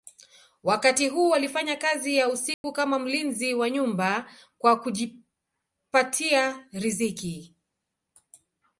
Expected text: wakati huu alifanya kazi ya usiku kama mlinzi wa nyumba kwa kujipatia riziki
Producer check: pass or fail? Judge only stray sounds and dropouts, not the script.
fail